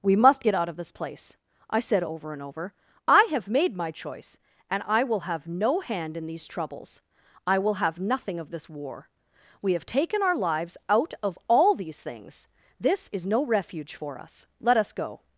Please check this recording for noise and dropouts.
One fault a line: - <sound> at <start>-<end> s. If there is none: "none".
none